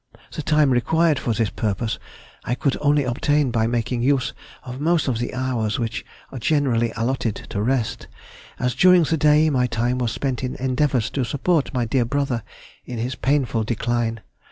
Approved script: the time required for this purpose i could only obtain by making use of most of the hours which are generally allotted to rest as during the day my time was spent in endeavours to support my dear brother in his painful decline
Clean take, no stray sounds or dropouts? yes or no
yes